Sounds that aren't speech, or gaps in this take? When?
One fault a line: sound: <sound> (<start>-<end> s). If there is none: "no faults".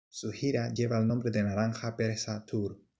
no faults